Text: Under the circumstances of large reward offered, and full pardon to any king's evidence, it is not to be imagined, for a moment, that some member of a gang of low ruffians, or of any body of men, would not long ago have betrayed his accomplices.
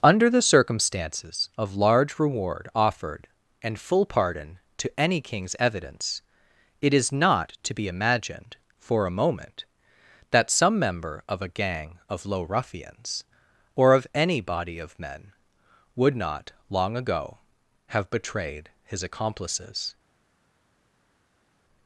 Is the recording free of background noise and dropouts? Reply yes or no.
yes